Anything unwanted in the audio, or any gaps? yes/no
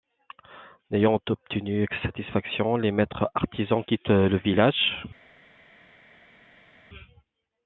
no